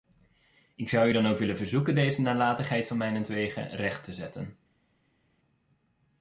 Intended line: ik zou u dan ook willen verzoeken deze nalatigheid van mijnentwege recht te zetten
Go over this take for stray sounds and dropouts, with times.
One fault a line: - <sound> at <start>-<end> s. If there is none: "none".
none